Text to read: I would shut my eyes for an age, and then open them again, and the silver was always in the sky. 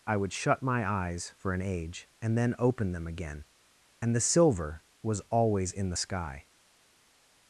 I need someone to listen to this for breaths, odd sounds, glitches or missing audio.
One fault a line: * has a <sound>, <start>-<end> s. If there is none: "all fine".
all fine